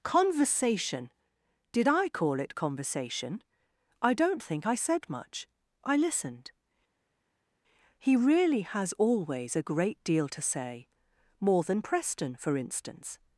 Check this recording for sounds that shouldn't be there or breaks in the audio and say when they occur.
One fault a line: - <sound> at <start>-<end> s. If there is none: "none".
none